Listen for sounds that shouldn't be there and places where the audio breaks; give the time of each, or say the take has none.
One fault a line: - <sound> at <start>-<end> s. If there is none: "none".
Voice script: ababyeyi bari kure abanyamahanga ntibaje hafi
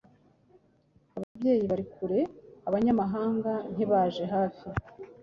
- dropout at 1.2-1.4 s